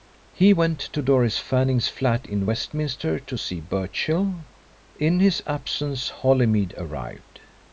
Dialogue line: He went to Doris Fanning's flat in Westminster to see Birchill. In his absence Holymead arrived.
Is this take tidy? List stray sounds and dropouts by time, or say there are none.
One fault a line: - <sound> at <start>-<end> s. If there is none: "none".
none